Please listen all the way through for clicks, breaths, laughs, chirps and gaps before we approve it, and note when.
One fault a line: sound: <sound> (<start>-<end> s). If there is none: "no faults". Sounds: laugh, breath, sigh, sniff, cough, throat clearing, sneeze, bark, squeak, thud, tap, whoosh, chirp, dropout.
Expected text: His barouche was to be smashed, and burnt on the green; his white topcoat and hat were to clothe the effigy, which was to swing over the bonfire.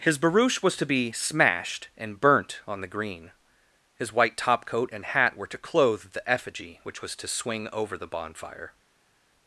no faults